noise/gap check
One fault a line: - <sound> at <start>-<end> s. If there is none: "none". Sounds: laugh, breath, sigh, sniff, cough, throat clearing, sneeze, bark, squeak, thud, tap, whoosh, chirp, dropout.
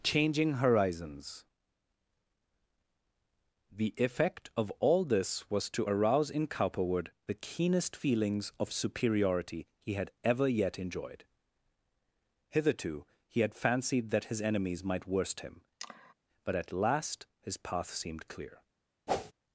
- sigh at 15.8-16.1 s
- whoosh at 19.1-19.3 s